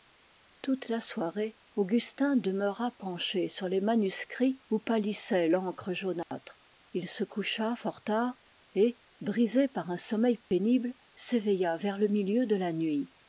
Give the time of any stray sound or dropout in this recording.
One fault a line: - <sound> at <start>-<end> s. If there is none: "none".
- dropout at 6.2-6.3 s
- dropout at 10.4-10.5 s